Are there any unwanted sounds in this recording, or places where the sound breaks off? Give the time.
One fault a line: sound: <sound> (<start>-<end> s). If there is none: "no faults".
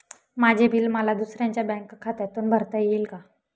no faults